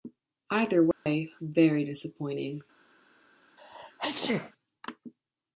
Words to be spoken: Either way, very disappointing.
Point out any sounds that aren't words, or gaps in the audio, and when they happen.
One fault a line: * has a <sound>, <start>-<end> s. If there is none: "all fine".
* has a dropout, 0.9-1.1 s
* has a sneeze, 3.6-4.5 s